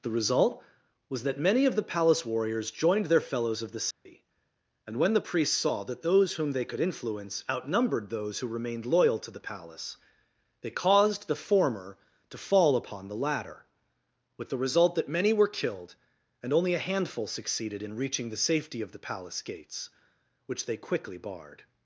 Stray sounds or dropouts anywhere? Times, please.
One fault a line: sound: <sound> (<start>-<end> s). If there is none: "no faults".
sound: dropout (3.9-4.1 s)